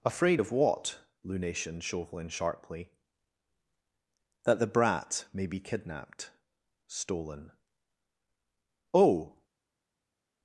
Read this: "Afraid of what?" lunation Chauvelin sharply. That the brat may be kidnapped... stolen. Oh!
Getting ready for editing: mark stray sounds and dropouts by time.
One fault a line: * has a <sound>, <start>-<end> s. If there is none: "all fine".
all fine